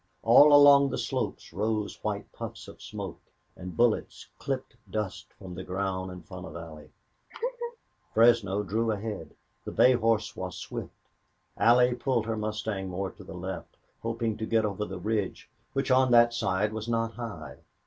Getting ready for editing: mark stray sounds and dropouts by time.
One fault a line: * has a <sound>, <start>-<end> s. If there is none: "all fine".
* has a laugh, 7.3-7.8 s